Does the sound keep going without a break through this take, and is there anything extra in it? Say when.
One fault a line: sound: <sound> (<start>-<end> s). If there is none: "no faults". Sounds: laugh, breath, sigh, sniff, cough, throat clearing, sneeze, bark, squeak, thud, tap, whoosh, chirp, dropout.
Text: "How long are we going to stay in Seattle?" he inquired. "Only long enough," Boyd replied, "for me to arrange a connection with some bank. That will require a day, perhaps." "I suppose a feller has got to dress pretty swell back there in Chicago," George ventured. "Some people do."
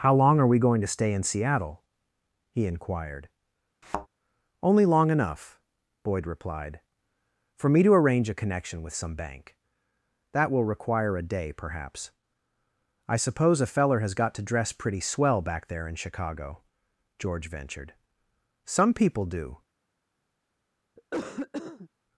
sound: thud (3.8-4.1 s)
sound: cough (21.0-21.9 s)